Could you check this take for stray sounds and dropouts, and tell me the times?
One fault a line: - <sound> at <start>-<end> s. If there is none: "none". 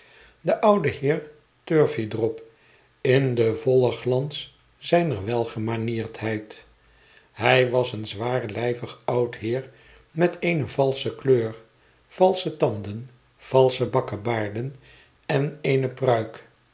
none